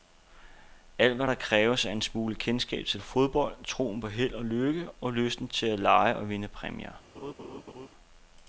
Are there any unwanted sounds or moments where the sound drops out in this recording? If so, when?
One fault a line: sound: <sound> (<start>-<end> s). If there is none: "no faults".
sound: laugh (7.2-7.9 s)